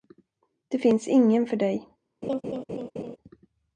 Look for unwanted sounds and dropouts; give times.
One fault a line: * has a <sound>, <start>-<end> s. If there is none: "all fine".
* has a laugh, 2.2-3.2 s